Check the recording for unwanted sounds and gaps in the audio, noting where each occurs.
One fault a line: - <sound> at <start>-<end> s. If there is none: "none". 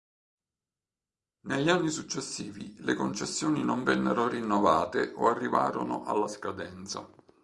none